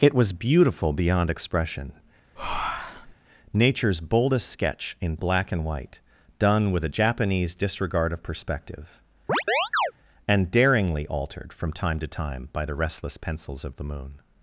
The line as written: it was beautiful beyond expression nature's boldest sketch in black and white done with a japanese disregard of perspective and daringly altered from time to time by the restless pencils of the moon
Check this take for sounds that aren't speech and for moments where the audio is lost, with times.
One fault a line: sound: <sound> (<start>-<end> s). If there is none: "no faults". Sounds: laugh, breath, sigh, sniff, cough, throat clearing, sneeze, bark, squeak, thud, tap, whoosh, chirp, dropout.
sound: breath (2.4-3.1 s)
sound: chirp (9.3-9.9 s)